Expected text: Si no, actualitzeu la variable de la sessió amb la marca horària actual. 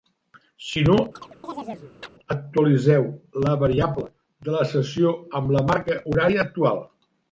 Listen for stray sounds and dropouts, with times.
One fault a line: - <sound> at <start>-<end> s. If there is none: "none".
- chirp at 1.1-2.1 s